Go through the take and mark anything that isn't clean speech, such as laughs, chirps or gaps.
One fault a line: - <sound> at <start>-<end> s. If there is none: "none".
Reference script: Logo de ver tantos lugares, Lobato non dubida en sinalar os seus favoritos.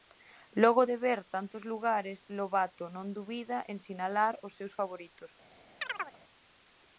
- chirp at 5.8-6.2 s